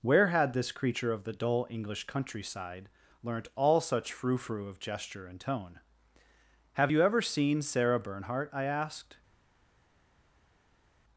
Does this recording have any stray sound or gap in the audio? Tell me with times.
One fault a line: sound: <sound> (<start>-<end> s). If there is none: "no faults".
no faults